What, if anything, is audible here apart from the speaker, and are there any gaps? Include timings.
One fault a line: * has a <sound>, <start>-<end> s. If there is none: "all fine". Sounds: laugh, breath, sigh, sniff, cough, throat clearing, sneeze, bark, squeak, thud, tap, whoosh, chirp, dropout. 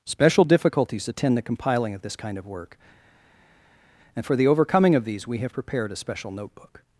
all fine